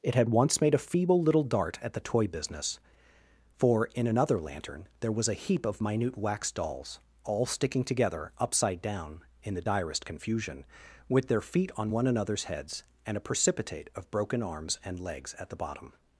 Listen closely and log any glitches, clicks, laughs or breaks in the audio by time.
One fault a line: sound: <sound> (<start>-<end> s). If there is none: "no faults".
no faults